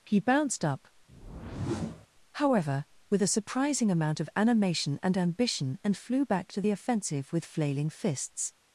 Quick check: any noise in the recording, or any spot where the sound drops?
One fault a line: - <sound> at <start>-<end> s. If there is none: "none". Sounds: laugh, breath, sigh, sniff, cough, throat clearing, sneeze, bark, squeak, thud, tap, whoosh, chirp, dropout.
- whoosh at 1.1-2.1 s